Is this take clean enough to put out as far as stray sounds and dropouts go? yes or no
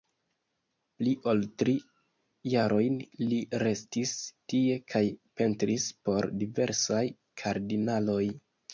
yes